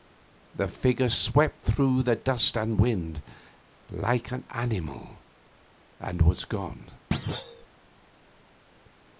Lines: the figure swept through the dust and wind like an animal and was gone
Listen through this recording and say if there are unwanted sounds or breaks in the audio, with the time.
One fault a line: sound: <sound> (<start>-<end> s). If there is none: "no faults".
sound: thud (7.1-7.7 s)